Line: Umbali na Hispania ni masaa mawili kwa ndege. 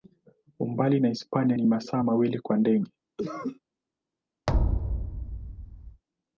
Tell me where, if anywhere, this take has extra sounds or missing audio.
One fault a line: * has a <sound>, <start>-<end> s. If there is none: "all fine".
* has a cough, 3.2-3.6 s
* has a thud, 4.5-6.0 s